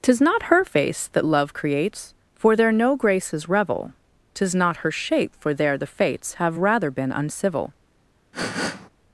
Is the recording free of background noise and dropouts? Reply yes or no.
no